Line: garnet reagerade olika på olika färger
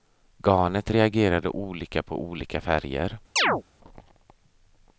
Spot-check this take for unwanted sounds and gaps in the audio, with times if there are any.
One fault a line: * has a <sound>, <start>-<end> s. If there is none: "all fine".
* has a chirp, 3.4-3.6 s